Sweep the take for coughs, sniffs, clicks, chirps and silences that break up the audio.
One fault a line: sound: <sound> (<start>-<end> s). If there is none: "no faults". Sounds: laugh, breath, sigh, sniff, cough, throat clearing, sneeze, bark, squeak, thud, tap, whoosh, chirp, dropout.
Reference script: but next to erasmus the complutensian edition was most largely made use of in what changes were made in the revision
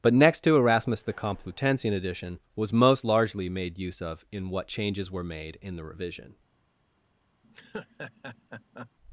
sound: laugh (7.4-8.9 s)